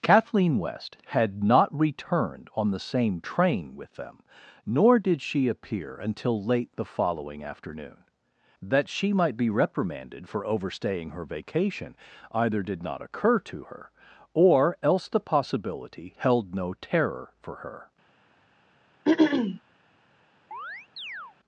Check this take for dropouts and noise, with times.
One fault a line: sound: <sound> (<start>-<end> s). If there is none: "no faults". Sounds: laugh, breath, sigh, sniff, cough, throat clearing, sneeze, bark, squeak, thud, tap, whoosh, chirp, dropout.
sound: throat clearing (19.1-19.6 s)
sound: chirp (20.5-21.4 s)